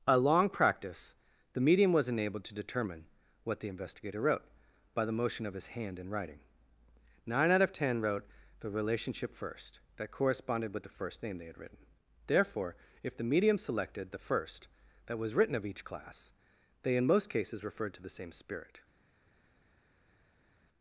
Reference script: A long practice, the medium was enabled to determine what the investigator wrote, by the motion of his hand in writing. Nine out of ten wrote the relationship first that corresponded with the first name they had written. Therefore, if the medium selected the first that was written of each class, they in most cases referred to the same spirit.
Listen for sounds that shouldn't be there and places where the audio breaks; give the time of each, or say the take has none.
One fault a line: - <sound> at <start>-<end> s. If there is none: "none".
none